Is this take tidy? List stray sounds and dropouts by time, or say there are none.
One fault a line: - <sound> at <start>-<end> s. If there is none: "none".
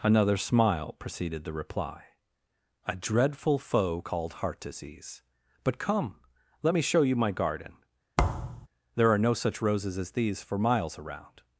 - thud at 8.2-8.7 s